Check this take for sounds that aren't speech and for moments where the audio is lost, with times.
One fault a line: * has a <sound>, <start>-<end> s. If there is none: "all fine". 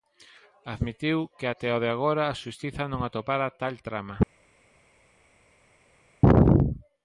all fine